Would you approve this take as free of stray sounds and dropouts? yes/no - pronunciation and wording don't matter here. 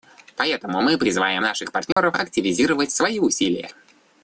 no